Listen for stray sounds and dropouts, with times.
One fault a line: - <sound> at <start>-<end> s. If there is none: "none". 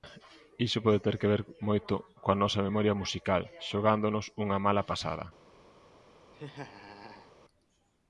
- laugh at 6.3-7.3 s